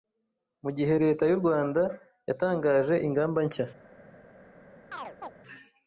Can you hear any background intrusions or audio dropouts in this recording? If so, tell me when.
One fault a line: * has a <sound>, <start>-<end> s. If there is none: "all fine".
* has a chirp, 4.9-5.3 s